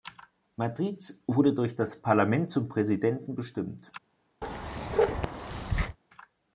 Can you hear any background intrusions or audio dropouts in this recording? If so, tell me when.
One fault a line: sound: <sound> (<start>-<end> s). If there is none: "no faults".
sound: bark (4.4-6.0 s)